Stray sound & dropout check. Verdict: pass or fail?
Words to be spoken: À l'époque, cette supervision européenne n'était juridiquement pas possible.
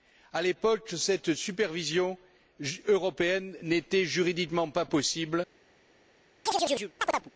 fail